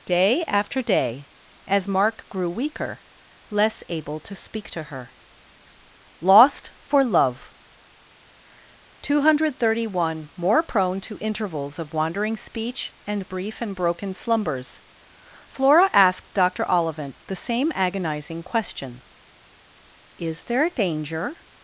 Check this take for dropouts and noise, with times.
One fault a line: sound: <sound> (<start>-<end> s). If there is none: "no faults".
no faults